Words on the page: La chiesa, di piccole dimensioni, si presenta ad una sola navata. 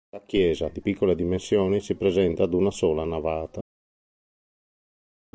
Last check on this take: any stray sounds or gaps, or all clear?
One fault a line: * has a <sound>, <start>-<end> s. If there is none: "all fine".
all fine